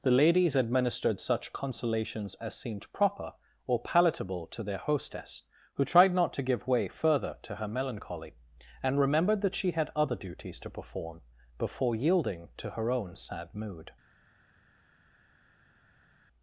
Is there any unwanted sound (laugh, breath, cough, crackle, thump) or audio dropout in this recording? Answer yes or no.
no